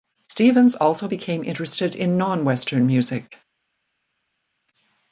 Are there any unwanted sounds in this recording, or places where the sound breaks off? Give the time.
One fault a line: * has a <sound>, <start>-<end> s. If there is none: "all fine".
all fine